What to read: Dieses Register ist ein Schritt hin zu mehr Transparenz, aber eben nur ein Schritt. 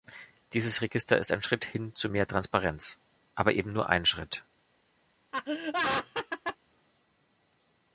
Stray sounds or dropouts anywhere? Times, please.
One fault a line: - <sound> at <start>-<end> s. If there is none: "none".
- laugh at 5.3-6.6 s